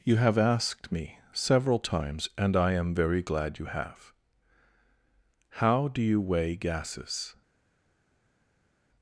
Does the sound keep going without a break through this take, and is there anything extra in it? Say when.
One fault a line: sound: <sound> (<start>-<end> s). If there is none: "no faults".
no faults